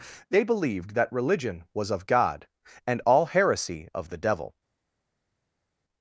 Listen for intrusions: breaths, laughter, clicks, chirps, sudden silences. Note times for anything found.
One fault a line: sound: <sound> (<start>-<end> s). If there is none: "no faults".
no faults